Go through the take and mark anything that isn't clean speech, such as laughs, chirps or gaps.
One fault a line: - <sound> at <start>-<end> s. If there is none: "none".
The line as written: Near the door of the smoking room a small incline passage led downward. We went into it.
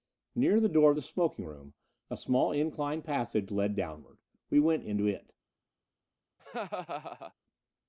- laugh at 6.4-7.3 s